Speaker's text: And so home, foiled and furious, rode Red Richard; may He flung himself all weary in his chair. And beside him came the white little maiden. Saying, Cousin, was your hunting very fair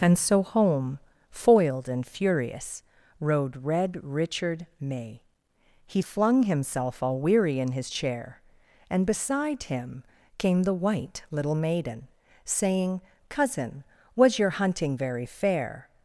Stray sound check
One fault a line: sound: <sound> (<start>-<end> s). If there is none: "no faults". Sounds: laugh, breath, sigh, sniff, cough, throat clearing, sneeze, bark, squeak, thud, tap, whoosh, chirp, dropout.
no faults